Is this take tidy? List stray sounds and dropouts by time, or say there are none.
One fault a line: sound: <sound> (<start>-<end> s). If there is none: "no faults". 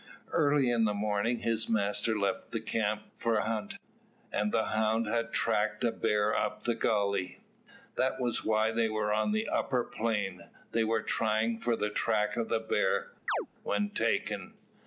sound: chirp (13.3-13.5 s)